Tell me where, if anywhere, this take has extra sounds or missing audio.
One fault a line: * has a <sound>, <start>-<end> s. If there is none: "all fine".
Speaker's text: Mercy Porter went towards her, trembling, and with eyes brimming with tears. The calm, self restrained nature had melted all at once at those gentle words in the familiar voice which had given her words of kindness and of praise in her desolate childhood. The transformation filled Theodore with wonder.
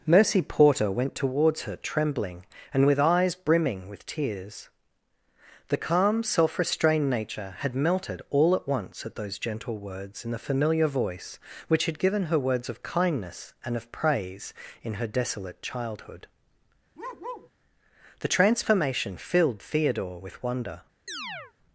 * has a bark, 17.0-17.5 s
* has a chirp, 21.1-21.5 s